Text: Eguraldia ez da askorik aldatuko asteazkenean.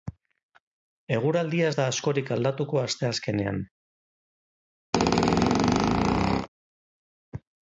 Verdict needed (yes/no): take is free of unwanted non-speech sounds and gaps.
no